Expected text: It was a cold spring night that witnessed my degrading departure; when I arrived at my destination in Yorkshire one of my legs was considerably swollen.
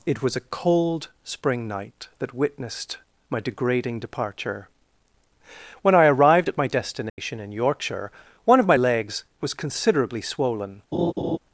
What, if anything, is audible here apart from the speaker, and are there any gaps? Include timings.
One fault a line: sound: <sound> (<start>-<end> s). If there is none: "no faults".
sound: dropout (7.1-7.2 s)
sound: laugh (10.9-11.4 s)